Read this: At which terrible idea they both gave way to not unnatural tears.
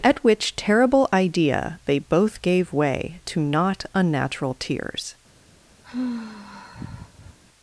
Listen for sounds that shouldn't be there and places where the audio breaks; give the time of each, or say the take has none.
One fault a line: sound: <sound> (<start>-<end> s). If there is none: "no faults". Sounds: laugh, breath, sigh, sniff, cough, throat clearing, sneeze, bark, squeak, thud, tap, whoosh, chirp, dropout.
sound: sigh (5.8-7.4 s)